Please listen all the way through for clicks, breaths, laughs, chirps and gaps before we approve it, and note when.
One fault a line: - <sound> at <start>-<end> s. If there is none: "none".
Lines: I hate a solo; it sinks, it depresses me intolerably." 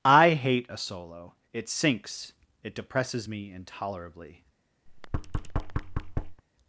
- thud at 4.9-6.4 s